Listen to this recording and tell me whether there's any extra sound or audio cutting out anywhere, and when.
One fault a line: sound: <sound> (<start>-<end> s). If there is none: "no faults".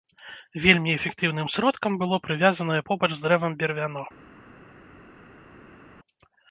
no faults